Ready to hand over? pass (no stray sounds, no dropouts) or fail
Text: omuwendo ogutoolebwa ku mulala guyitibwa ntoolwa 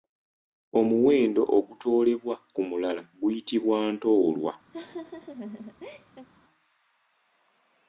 fail